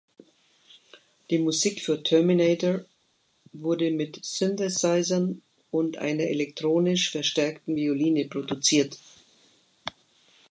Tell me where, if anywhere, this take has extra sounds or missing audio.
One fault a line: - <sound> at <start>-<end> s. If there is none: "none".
none